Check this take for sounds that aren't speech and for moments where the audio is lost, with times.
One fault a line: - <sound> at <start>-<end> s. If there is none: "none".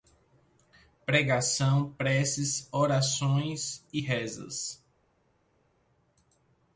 none